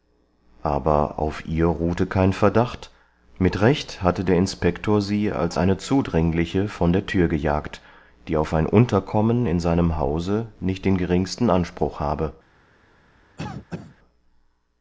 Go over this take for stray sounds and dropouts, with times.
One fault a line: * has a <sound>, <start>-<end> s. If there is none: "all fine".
* has a cough, 13.4-14.0 s